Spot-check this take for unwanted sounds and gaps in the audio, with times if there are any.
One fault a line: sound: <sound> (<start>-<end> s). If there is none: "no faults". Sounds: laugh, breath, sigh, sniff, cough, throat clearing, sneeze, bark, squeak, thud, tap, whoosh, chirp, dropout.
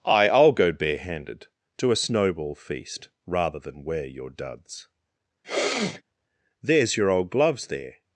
sound: sneeze (5.4-6.0 s)